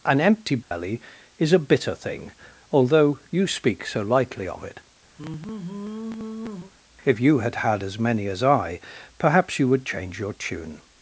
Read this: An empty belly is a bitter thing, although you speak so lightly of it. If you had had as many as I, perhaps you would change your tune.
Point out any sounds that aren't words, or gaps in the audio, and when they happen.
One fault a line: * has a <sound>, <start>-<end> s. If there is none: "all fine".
* has a dropout, 0.6-0.7 s
* has a sigh, 5.2-6.7 s